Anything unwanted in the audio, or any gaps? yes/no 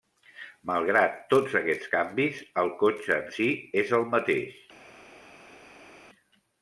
no